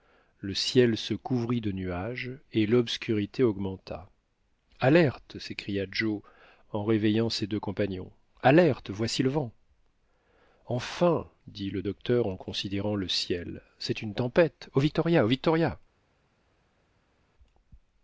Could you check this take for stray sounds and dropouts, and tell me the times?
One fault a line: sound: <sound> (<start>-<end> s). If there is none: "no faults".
no faults